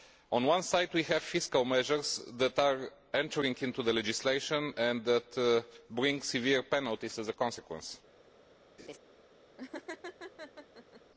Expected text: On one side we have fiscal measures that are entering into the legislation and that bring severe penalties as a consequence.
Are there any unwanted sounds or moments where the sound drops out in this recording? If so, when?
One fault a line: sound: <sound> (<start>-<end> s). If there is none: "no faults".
sound: laugh (8.8-9.0 s)
sound: laugh (9.6-11.0 s)